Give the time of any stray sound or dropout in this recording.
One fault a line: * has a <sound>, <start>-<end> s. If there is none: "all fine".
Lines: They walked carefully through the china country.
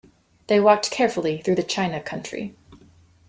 all fine